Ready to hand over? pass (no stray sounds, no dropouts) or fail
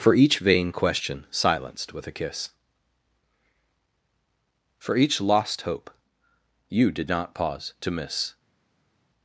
pass